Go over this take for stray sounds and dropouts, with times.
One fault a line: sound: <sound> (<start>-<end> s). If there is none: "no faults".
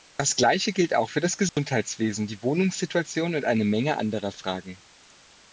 sound: dropout (1.5-1.6 s)